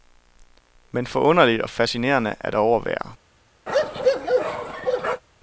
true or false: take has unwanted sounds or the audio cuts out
true